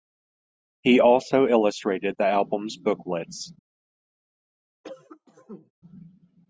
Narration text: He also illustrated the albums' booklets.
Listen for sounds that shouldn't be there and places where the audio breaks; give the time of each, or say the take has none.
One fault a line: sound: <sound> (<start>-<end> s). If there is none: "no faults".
sound: cough (4.8-5.7 s)